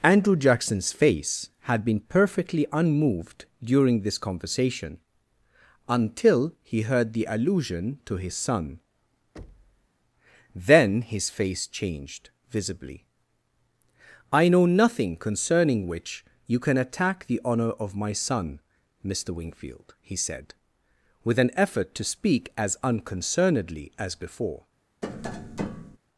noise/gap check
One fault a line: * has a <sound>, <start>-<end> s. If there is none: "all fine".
* has a thud, 9.4-9.9 s
* has a tap, 25.0-26.0 s